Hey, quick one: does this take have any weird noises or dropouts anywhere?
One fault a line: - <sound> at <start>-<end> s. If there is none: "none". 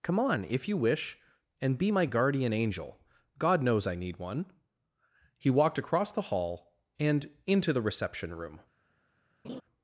- laugh at 9.4-9.6 s